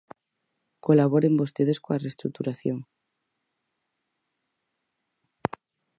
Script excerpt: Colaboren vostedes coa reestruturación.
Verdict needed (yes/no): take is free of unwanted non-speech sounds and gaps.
yes